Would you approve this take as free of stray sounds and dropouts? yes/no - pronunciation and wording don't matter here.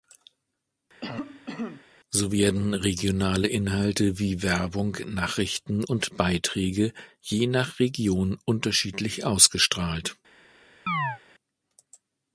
no